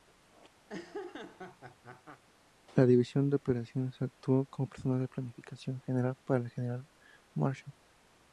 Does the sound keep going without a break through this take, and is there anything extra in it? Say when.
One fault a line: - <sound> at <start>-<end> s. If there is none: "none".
- laugh at 0.7-2.2 s